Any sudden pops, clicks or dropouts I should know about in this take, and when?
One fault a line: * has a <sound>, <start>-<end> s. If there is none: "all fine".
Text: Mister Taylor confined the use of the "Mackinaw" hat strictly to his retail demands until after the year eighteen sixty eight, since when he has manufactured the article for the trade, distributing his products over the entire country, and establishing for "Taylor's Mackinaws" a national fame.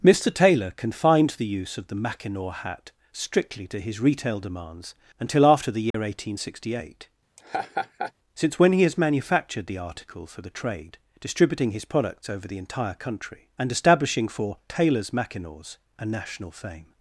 * has a dropout, 5.9-5.9 s
* has a laugh, 7.4-8.1 s